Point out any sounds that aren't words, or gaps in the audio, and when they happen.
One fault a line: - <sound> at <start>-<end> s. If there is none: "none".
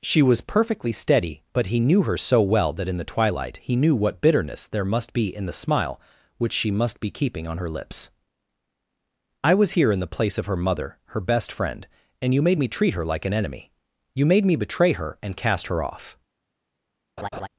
- laugh at 17.2-17.5 s